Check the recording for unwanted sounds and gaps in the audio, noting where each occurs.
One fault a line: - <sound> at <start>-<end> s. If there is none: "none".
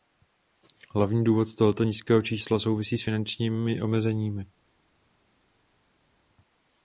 none